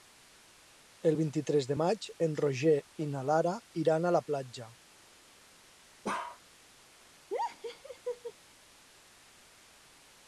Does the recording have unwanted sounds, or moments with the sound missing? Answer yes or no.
yes